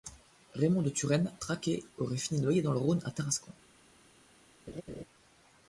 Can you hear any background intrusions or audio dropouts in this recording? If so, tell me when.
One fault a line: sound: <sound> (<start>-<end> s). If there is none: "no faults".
sound: laugh (4.7-5.0 s)